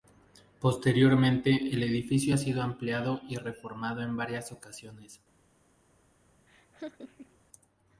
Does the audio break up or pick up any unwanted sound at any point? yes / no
yes